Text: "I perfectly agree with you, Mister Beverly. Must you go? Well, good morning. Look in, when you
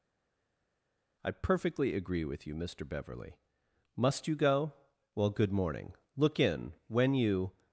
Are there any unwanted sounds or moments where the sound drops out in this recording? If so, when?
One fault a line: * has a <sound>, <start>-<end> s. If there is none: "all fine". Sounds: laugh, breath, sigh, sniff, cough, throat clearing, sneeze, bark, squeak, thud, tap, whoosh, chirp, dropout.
all fine